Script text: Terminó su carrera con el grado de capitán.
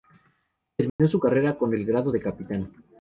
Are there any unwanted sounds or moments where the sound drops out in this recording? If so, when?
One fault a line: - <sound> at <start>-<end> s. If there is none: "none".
- dropout at 0.9-1.0 s